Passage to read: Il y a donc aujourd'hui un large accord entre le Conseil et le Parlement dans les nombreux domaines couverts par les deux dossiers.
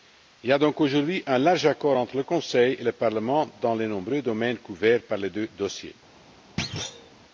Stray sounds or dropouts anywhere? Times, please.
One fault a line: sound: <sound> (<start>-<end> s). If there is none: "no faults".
sound: thud (6.6-7.1 s)